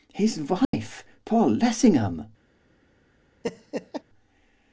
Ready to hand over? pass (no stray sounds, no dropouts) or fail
fail